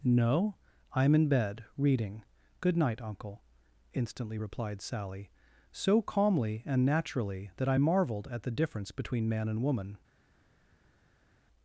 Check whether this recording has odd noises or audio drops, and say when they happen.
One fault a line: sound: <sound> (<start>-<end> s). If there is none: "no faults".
no faults